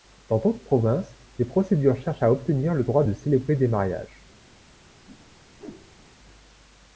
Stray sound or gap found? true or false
true